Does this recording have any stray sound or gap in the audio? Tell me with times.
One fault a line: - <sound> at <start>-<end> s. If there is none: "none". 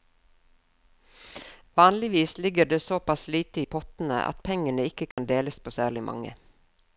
- dropout at 5.1-5.2 s